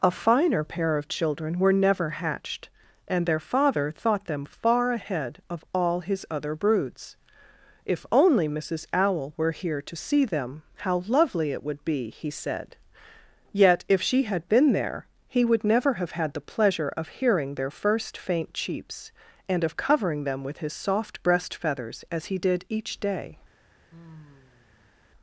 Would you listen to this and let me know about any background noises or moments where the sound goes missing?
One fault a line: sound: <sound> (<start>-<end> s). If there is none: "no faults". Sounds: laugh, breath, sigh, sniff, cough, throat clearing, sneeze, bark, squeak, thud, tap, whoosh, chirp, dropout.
sound: sigh (23.9-25.0 s)